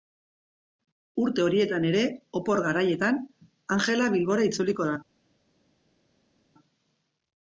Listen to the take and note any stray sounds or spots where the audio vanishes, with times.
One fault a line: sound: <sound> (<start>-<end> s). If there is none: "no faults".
no faults